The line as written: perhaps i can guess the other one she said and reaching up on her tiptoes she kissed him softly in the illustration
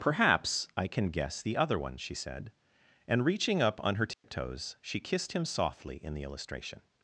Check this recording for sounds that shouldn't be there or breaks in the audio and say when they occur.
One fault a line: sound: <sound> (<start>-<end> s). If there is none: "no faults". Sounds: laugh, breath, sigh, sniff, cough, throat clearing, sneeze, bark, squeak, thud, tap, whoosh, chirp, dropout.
sound: dropout (4.1-4.2 s)